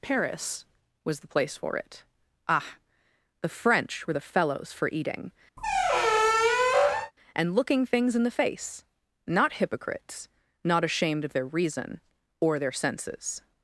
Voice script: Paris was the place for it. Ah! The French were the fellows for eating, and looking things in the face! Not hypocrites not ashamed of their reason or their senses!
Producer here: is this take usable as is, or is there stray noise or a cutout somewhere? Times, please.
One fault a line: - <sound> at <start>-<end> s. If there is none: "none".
- squeak at 5.6-7.1 s